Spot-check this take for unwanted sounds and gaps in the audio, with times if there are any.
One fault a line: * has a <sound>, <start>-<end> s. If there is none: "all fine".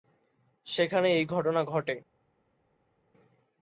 all fine